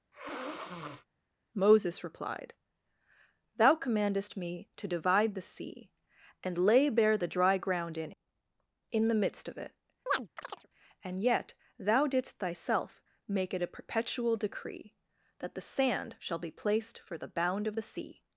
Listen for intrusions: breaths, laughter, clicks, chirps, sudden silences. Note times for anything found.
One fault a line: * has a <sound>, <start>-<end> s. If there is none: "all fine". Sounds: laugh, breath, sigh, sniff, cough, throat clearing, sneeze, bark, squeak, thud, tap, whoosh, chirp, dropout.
* has a sniff, 0.1-1.1 s
* has a chirp, 10.1-10.7 s